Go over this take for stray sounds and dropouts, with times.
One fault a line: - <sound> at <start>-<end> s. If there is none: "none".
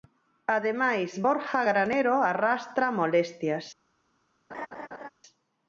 - laugh at 4.5-5.1 s